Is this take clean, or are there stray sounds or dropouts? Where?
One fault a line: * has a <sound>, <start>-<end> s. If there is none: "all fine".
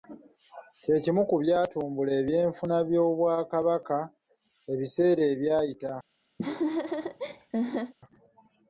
* has a laugh, 6.4-7.9 s